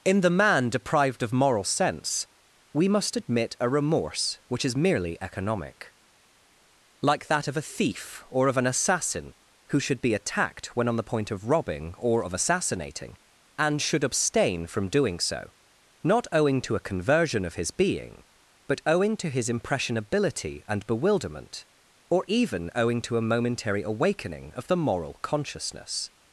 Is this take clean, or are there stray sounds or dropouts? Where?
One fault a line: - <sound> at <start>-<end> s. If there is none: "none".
none